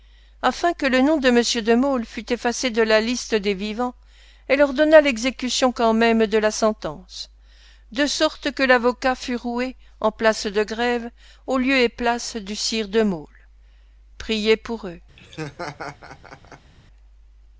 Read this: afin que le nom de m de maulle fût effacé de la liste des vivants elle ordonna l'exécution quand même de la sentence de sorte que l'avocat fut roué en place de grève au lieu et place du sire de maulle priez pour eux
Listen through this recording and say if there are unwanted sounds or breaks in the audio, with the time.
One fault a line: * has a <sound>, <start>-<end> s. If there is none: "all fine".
* has a laugh, 15.2-16.7 s